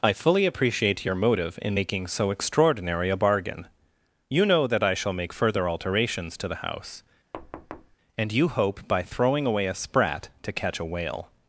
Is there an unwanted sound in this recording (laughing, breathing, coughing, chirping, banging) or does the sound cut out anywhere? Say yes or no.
yes